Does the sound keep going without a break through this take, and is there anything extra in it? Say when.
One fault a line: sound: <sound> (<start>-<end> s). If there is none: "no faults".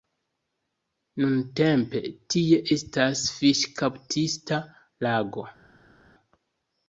no faults